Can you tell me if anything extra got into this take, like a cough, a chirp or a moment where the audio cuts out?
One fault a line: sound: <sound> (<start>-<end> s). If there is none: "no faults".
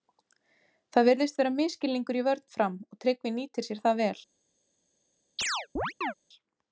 sound: chirp (5.4-6.1 s)